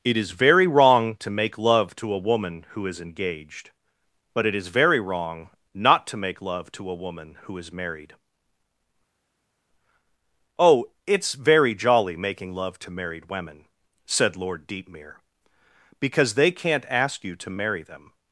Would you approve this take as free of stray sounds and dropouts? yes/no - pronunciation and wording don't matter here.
yes